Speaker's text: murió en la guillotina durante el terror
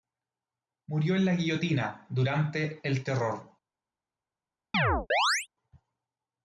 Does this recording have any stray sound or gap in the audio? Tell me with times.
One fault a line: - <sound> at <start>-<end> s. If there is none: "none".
- chirp at 4.7-5.5 s